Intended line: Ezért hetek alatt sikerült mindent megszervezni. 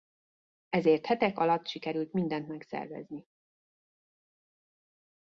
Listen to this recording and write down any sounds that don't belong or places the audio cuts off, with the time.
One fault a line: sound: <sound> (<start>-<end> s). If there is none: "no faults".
no faults